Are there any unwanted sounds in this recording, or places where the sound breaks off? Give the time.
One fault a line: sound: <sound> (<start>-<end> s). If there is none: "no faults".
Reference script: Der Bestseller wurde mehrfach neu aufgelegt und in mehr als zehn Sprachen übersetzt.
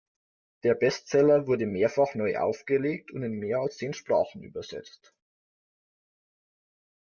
no faults